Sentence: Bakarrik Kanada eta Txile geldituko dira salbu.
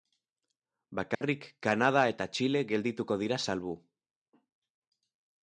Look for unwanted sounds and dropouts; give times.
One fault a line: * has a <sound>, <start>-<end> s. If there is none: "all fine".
* has a dropout, 1.1-1.2 s